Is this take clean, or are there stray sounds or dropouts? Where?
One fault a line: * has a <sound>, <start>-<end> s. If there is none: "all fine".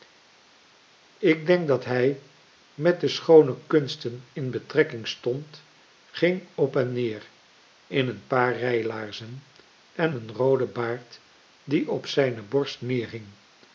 all fine